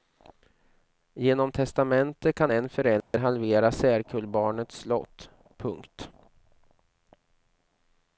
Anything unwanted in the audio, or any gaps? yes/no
yes